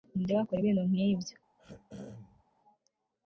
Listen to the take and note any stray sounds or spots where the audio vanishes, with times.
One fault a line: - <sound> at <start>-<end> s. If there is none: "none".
- throat clearing at 1.6-2.4 s